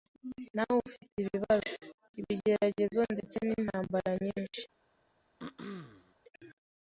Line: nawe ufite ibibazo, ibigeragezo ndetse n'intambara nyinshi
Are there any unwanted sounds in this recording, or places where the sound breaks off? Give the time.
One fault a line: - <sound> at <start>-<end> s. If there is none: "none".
- throat clearing at 5.4-6.1 s